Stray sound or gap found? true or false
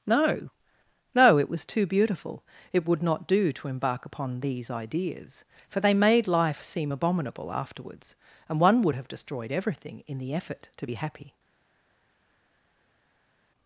false